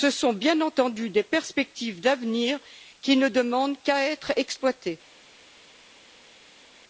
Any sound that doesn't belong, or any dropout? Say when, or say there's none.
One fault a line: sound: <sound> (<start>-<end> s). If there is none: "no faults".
no faults